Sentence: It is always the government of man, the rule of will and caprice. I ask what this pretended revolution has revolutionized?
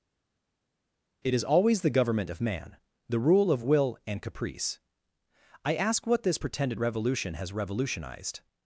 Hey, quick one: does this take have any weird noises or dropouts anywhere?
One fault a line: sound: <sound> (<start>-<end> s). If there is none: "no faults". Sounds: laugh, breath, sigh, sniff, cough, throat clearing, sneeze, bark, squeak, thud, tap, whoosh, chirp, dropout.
no faults